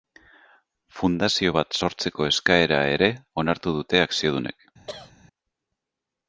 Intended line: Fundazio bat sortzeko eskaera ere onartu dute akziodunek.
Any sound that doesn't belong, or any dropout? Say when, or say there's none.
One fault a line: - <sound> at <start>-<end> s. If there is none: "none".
- cough at 4.9-5.1 s